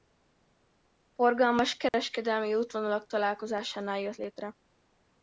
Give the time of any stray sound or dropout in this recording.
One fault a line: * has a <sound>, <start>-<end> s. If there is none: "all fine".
* has a dropout, 1.9-1.9 s